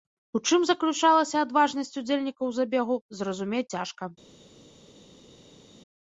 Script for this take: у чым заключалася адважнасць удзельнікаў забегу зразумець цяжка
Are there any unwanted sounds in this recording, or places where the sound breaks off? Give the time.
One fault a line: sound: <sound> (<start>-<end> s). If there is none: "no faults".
no faults